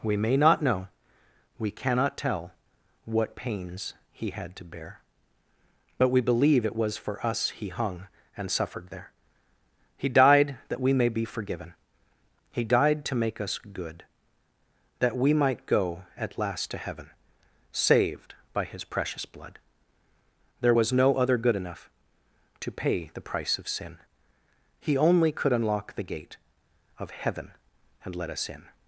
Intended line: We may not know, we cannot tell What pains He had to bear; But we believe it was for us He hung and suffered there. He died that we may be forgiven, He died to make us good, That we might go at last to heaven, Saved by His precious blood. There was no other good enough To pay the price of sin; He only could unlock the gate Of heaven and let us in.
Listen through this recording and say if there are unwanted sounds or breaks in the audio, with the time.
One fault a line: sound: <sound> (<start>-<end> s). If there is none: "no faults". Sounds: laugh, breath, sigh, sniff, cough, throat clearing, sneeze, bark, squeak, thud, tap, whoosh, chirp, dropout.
no faults